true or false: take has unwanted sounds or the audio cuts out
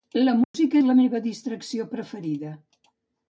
true